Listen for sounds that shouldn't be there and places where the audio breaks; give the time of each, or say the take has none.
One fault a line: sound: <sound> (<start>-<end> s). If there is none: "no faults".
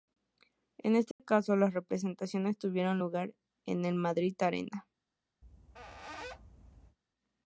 sound: dropout (1.1-1.2 s)
sound: squeak (5.4-7.0 s)